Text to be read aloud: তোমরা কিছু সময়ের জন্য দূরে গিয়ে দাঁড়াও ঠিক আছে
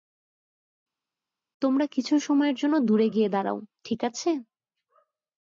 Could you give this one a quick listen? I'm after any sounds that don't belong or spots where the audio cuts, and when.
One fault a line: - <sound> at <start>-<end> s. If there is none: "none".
none